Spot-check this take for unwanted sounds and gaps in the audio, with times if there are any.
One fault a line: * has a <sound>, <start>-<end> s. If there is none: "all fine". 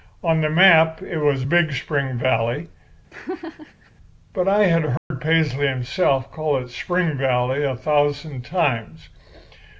* has a laugh, 3.1-3.9 s
* has a dropout, 5.0-5.1 s